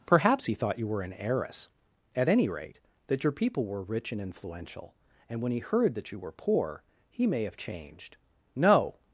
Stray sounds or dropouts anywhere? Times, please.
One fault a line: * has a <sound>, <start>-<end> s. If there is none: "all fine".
all fine